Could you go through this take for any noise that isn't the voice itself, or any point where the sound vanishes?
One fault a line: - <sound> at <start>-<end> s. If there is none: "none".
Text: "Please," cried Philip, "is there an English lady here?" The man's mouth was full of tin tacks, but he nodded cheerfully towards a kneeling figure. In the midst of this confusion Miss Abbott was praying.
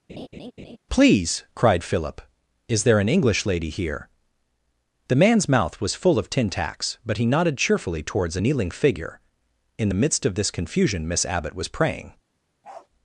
- laugh at 0.1-0.8 s
- bark at 12.6-12.9 s